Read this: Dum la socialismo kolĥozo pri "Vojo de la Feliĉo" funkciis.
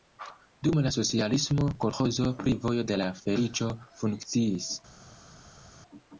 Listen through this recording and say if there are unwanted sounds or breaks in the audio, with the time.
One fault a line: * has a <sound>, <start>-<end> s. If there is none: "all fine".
all fine